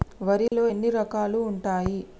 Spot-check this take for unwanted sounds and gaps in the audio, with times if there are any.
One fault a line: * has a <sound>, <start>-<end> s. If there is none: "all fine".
* has a dropout, 0.5-0.5 s